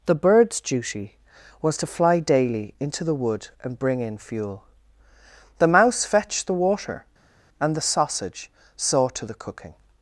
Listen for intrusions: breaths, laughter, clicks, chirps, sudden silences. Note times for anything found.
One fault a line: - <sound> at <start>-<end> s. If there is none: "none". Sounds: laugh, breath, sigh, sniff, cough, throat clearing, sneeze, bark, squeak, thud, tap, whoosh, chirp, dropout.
none